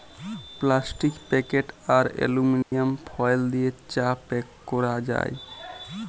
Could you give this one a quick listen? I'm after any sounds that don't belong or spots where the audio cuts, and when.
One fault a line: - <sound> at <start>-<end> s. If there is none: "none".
- dropout at 2.6-2.7 s